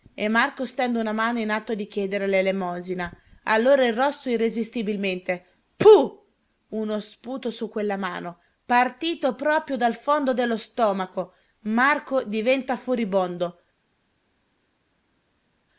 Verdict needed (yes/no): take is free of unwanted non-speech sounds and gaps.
yes